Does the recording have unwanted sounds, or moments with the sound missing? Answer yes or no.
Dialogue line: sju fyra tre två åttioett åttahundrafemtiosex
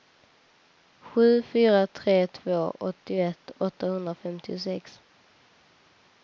no